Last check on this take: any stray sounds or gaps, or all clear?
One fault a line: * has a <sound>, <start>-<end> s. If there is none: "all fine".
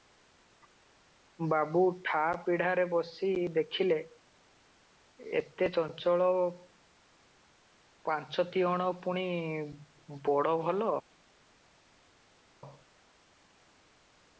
all fine